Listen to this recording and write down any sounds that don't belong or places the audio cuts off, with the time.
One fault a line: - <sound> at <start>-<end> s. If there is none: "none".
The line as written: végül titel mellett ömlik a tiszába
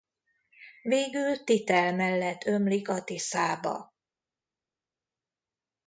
none